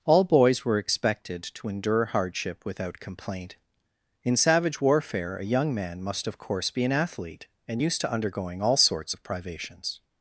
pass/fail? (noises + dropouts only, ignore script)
pass